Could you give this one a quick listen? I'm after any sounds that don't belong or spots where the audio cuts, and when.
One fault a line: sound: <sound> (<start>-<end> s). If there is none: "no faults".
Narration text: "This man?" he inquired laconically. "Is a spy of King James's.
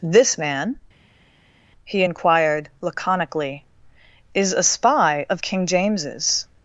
no faults